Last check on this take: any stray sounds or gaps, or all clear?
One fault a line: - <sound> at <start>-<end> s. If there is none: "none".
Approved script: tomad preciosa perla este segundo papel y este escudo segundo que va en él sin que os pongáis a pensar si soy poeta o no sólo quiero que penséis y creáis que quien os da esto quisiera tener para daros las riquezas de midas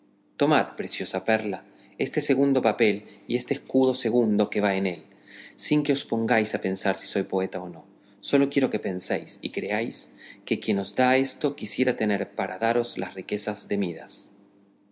none